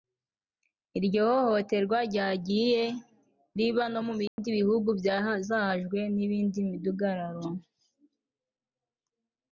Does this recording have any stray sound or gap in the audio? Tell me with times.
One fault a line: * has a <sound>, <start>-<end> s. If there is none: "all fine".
* has a dropout, 4.3-4.4 s